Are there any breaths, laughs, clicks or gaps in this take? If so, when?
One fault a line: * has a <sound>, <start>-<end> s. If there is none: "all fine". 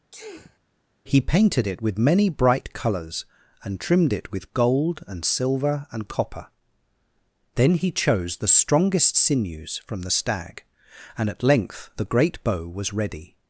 * has a sneeze, 0.1-0.6 s